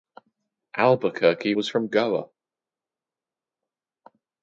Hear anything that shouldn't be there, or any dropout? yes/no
no